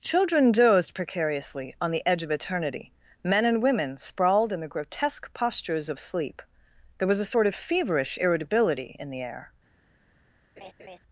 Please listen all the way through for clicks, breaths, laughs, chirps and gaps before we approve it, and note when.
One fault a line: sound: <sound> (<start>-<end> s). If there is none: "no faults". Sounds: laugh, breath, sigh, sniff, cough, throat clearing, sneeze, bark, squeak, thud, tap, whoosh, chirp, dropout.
sound: laugh (10.6-11.0 s)